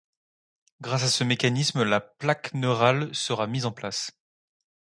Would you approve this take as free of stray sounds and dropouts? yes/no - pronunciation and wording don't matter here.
yes